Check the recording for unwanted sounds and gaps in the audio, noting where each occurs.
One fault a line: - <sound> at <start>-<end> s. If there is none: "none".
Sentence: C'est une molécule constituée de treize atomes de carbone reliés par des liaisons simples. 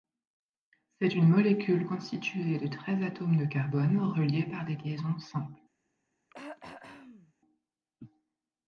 - throat clearing at 6.3-7.3 s